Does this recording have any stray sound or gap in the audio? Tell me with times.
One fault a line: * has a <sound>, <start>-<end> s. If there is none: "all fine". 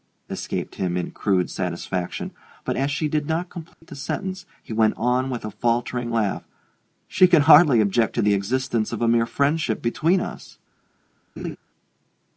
* has a dropout, 3.7-3.8 s
* has a laugh, 11.4-11.6 s